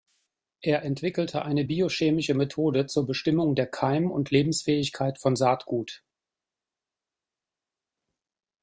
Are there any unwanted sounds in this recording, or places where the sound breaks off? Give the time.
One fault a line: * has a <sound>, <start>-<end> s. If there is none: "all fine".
all fine